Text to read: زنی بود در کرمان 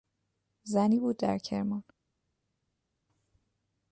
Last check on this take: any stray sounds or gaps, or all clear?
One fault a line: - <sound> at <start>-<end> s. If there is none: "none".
none